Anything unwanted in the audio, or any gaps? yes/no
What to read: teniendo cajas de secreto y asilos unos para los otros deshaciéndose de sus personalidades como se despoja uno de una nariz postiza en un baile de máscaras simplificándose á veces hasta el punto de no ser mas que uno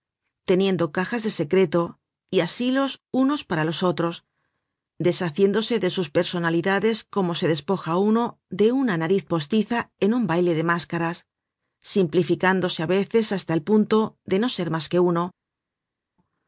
no